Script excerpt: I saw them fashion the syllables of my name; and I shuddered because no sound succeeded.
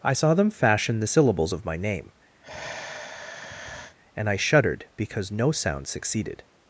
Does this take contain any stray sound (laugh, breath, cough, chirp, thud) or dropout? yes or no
yes